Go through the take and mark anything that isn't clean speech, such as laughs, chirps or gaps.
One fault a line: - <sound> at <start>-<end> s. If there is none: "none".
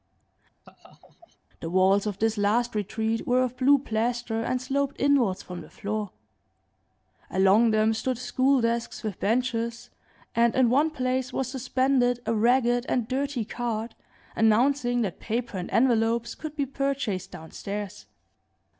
- laugh at 0.6-1.4 s